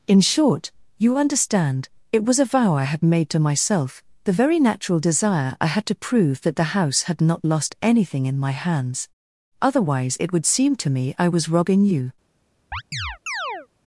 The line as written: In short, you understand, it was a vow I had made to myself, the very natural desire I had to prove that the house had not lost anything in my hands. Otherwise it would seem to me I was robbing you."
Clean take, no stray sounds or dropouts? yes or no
no